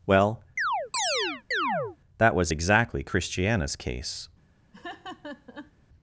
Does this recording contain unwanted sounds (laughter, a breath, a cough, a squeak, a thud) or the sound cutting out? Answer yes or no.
yes